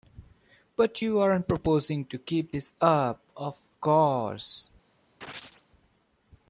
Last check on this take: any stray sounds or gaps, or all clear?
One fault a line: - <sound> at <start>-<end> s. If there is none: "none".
- chirp at 5.2-5.7 s